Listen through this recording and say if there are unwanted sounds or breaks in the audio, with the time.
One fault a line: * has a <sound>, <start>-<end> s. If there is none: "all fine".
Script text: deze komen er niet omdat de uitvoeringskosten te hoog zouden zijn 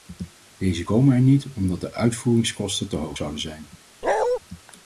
* has a bark, 4.0-4.4 s